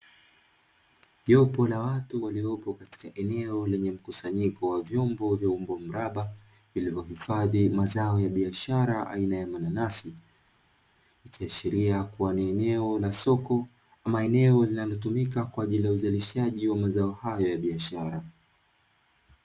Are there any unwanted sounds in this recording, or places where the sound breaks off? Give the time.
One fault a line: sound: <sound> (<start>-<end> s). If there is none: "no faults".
no faults